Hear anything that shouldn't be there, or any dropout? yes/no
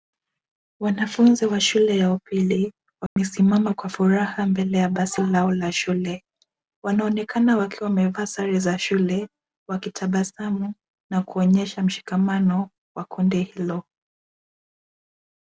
yes